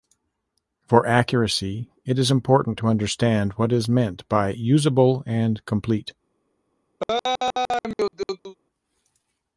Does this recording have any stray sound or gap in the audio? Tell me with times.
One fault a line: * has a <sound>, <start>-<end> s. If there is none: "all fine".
* has a laugh, 7.0-8.6 s